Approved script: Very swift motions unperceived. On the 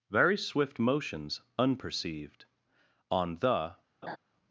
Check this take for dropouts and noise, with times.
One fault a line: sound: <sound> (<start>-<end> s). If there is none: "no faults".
sound: laugh (4.0-4.2 s)